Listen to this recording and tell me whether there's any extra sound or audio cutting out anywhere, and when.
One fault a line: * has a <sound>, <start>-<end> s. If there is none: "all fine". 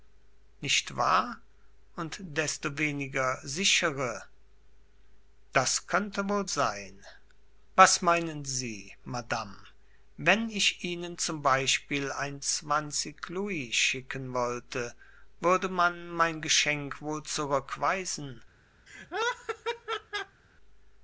* has a laugh, 18.9-20.4 s